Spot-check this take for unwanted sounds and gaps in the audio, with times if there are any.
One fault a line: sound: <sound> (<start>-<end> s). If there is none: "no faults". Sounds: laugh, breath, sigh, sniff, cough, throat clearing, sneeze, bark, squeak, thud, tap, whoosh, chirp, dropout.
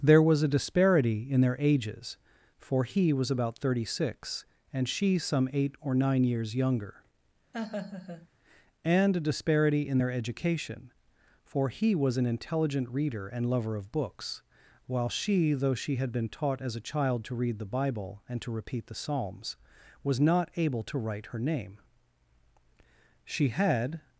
sound: laugh (7.5-8.3 s)